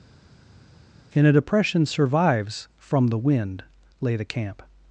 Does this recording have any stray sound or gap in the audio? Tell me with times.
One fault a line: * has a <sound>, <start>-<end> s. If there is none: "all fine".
all fine